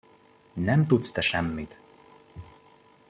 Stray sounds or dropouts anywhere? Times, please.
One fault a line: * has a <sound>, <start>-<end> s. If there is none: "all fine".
all fine